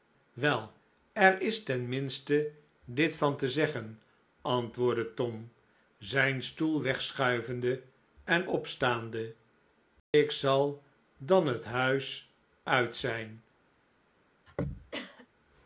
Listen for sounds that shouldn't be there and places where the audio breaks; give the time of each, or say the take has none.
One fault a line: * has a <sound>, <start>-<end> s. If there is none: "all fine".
* has a dropout, 10.0-10.1 s
* has a throat clearing, 14.4-15.3 s